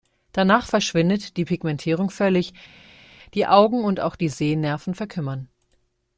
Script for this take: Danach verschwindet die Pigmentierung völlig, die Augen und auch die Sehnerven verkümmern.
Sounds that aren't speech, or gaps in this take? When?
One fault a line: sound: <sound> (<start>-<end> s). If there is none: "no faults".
no faults